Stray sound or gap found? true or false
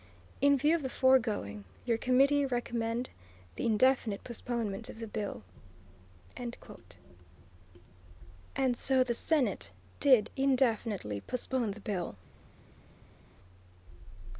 false